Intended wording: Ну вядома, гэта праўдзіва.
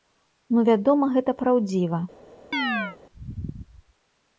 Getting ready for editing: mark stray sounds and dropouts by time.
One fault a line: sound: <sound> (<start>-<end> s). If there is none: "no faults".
sound: chirp (2.5-3.0 s)